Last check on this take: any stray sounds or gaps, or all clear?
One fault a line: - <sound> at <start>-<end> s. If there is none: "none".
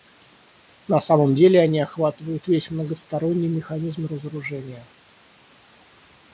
none